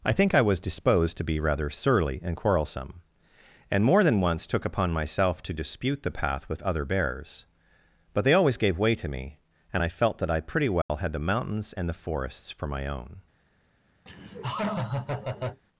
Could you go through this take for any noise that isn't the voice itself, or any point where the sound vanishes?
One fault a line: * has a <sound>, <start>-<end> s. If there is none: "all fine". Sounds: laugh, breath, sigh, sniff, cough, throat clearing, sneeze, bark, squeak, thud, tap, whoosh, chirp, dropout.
* has a dropout, 10.8-10.9 s
* has a laugh, 14.1-15.6 s